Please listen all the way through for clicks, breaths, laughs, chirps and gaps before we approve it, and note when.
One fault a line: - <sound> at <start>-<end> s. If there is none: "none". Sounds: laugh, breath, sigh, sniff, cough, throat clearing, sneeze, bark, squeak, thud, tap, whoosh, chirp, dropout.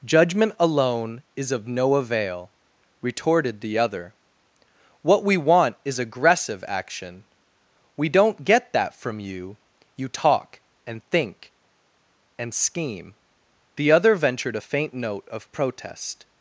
none